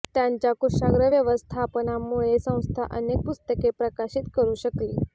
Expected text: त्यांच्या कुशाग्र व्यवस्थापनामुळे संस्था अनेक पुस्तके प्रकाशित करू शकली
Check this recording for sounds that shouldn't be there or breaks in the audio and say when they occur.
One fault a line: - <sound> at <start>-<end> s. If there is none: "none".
none